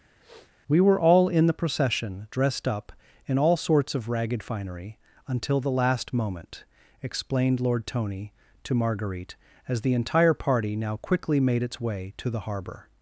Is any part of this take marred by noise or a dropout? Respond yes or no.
yes